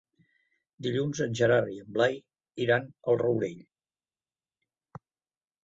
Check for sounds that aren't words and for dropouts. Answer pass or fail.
pass